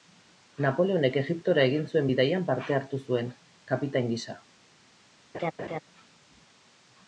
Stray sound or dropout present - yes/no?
yes